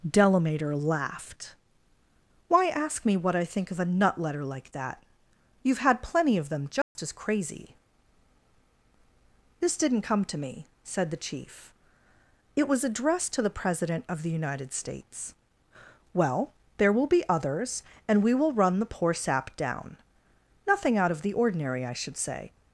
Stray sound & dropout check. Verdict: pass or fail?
fail